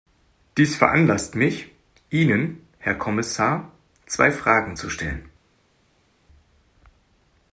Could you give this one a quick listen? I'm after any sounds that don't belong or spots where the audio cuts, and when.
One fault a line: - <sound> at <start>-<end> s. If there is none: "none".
none